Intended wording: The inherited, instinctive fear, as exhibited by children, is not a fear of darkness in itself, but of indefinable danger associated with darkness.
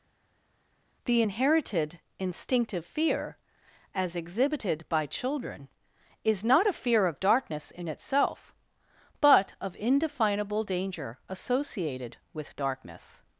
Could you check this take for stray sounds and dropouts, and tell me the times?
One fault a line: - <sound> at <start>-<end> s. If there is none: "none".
none